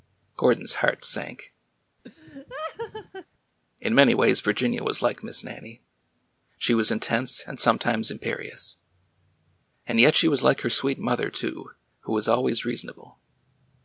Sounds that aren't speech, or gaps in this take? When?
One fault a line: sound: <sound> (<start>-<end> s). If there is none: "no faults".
sound: laugh (2.0-3.3 s)